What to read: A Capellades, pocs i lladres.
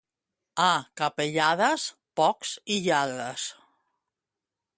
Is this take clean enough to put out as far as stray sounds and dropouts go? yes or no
yes